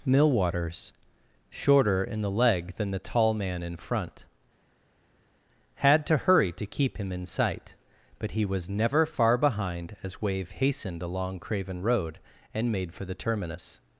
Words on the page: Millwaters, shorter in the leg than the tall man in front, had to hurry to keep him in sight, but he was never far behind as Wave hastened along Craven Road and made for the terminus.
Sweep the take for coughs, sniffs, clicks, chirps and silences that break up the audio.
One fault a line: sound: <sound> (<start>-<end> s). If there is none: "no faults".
no faults